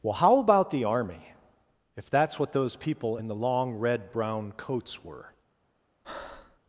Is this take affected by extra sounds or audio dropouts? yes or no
yes